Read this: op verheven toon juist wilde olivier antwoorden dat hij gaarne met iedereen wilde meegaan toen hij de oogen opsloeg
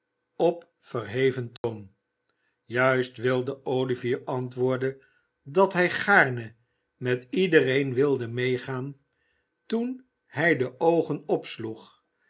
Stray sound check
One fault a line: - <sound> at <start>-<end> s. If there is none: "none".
- dropout at 1.6-1.6 s